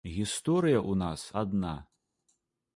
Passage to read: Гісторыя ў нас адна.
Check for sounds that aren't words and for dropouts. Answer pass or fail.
pass